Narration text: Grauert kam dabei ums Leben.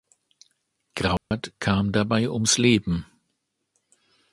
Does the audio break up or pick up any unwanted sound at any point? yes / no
yes